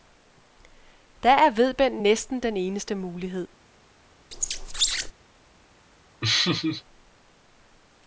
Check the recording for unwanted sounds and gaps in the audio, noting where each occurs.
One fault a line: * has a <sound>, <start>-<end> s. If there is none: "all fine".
* has a squeak, 4.3-5.1 s
* has a laugh, 6.2-6.8 s